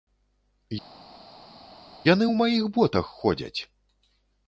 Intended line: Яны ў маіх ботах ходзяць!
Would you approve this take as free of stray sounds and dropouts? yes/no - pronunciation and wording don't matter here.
yes